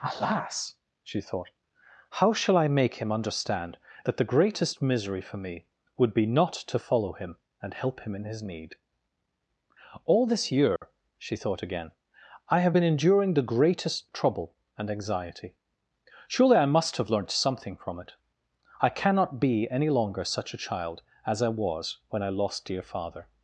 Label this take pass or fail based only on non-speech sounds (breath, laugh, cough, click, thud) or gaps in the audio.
fail